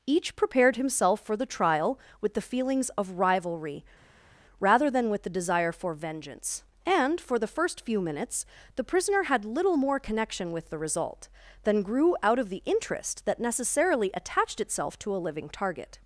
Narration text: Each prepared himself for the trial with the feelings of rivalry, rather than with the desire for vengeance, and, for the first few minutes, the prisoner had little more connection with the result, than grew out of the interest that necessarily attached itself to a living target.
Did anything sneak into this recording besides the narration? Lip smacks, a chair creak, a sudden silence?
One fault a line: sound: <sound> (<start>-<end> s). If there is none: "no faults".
no faults